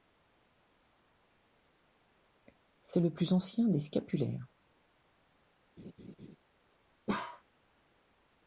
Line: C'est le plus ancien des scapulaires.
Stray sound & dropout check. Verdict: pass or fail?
fail